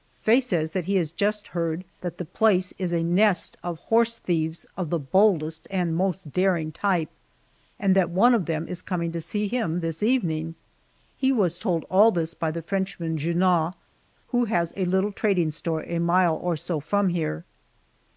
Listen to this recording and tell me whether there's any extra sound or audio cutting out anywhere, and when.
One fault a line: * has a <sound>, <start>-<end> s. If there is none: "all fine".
all fine